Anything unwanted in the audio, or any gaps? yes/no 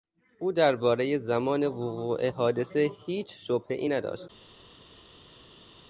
no